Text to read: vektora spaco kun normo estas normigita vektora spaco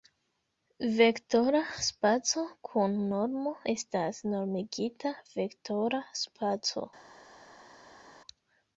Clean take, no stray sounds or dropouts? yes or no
yes